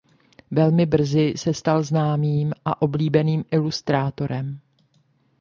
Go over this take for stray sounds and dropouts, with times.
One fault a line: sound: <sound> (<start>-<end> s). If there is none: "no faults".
no faults